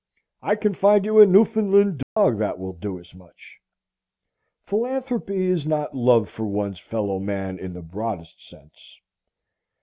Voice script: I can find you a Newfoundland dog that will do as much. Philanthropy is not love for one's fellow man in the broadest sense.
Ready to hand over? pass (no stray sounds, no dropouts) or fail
fail